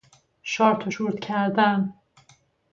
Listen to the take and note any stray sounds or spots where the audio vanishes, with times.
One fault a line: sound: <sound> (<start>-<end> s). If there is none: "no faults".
no faults